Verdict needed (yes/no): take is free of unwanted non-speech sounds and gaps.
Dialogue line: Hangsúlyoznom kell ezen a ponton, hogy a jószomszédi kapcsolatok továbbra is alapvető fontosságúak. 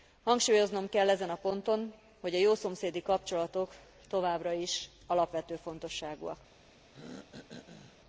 no